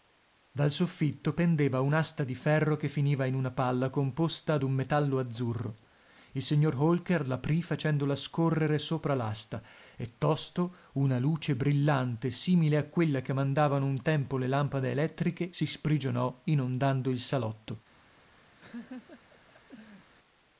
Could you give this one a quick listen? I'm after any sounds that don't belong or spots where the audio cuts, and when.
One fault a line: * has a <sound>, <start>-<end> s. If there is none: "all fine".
* has a laugh, 18.6-20.1 s